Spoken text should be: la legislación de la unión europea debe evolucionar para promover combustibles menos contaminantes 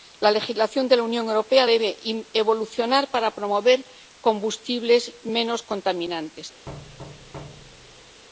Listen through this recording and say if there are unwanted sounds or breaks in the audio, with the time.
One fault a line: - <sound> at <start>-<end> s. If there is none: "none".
- thud at 6.7-8.2 s